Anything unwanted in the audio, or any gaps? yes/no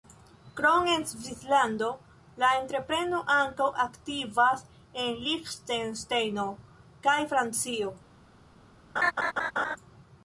yes